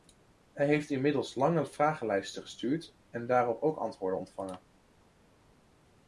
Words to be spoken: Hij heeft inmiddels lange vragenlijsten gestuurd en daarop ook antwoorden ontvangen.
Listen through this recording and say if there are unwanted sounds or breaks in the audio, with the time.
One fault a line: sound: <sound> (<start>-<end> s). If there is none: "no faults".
no faults